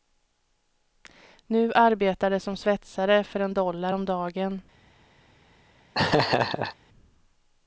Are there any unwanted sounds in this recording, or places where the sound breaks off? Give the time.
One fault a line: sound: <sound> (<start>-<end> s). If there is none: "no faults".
sound: laugh (5.9-6.8 s)